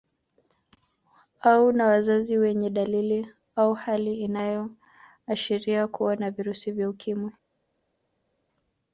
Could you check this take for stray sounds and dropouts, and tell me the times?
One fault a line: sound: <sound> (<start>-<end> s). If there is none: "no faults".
no faults